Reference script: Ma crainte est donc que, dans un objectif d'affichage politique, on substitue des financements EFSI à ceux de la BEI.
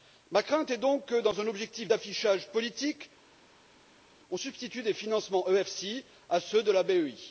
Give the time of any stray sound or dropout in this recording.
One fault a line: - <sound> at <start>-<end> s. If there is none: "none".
none